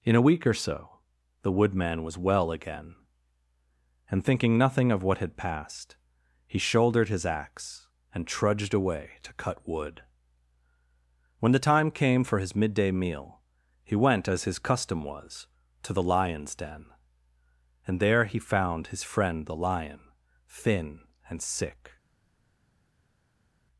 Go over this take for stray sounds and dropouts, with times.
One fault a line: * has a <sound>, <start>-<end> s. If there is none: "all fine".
all fine